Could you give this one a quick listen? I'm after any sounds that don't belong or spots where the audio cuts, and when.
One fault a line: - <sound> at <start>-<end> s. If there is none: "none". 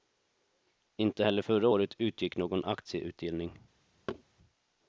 - thud at 4.1-4.2 s